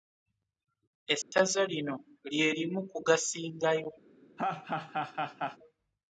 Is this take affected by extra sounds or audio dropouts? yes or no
yes